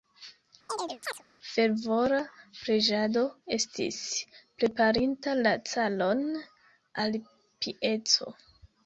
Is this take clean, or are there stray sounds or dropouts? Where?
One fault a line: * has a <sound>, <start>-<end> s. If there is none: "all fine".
* has a chirp, 0.7-1.2 s